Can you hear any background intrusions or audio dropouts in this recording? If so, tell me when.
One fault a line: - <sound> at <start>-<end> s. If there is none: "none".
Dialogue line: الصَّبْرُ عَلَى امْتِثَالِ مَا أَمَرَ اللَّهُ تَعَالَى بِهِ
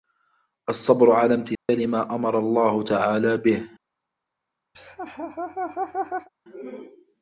- dropout at 1.5-1.7 s
- laugh at 4.7-6.3 s